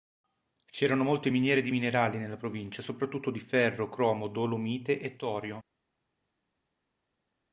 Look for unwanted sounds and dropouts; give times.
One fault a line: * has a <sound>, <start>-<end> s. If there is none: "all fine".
all fine